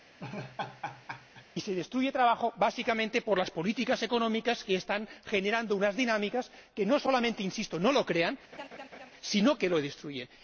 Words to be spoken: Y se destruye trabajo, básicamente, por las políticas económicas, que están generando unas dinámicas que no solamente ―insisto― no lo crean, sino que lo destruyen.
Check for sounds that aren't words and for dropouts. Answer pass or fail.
fail